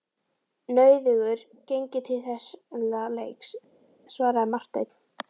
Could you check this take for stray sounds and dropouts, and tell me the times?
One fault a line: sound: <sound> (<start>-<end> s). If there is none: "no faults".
no faults